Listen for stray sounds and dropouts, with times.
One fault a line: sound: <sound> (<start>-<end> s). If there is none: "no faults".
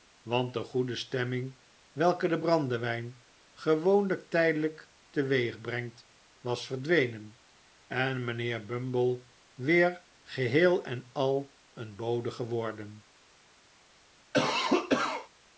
sound: cough (14.3-15.3 s)